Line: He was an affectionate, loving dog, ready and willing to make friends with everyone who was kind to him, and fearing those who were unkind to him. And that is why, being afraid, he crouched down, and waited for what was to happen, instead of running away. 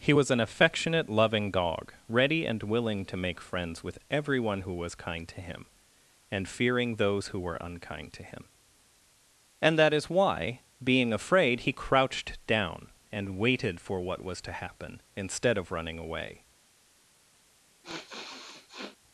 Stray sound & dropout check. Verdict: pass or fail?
fail